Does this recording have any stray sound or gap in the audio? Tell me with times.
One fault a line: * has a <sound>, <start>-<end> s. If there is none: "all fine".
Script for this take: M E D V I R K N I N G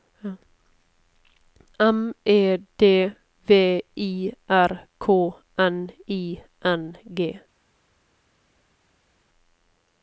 all fine